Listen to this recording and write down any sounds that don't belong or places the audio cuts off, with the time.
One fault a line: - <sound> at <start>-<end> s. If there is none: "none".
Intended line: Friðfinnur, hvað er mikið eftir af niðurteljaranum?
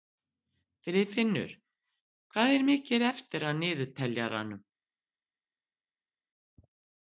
none